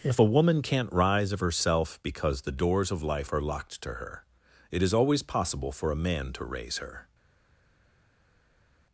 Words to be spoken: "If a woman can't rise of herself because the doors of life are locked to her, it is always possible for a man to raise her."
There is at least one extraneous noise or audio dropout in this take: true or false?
false